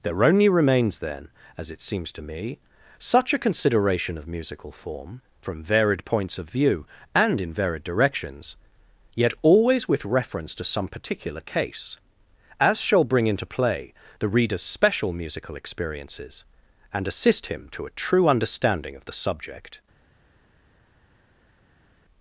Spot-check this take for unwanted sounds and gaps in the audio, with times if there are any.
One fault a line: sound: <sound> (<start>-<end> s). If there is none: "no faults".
no faults